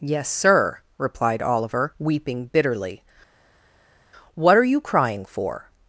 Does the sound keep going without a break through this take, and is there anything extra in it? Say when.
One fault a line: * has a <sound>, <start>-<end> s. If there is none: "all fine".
all fine